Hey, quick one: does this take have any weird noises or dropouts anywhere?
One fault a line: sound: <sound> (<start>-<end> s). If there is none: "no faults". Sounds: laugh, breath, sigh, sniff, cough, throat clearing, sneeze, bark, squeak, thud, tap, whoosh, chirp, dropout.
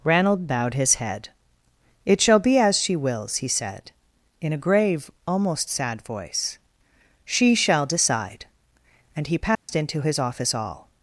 sound: dropout (9.5-9.7 s)